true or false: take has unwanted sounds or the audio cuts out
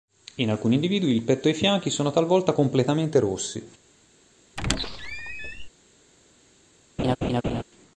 true